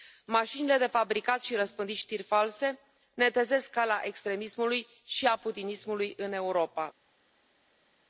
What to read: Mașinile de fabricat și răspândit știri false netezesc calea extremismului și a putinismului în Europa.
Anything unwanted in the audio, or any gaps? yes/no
no